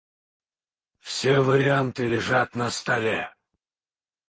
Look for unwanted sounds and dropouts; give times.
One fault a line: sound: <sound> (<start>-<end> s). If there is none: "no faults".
no faults